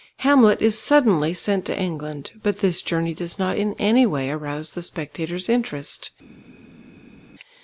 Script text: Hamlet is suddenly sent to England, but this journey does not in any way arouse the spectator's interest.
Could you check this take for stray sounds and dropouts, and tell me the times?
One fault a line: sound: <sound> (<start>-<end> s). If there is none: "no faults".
no faults